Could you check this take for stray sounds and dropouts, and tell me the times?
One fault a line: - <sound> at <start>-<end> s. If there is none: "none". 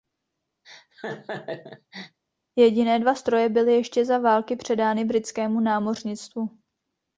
- laugh at 0.6-2.2 s